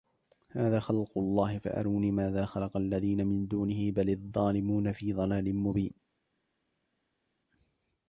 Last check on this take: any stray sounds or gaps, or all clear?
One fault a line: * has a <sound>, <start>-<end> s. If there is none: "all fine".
all fine